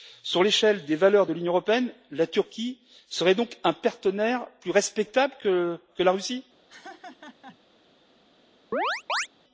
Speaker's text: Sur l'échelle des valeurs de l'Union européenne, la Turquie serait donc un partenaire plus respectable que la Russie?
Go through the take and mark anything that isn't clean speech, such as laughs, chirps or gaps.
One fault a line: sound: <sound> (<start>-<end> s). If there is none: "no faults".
sound: laugh (6.7-7.6 s)
sound: chirp (8.7-9.3 s)